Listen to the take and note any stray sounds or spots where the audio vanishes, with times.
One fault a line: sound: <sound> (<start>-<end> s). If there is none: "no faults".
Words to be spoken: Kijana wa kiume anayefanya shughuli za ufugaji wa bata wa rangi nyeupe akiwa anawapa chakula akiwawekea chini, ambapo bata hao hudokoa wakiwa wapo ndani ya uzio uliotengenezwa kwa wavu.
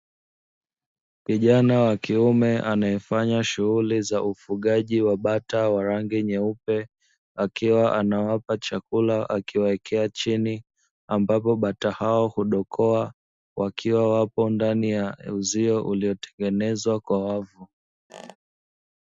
sound: squeak (18.1-18.4 s)